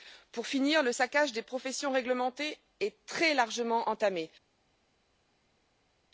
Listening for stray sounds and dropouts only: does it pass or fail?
pass